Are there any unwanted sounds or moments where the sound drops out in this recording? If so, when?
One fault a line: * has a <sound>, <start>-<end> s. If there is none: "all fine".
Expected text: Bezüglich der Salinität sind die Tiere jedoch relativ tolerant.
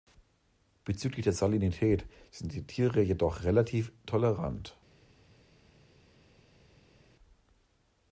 all fine